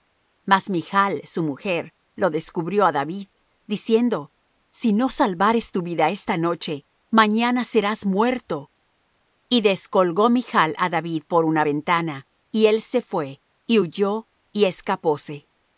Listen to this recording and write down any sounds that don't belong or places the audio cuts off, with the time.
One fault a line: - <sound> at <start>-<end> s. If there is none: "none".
none